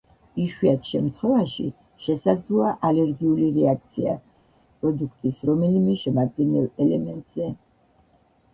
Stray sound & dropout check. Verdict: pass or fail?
pass